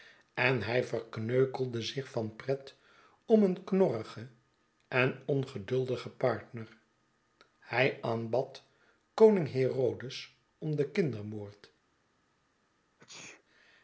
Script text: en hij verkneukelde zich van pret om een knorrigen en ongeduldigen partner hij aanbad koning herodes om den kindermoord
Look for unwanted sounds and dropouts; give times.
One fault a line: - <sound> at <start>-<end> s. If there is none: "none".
- sneeze at 13.0-13.4 s